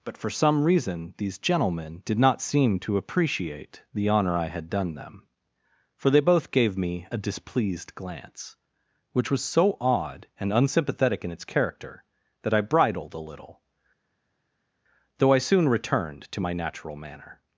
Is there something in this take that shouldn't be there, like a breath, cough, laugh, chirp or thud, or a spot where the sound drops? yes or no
no